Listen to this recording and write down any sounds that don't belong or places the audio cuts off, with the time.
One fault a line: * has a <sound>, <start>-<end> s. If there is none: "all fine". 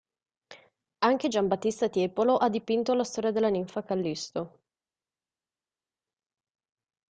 all fine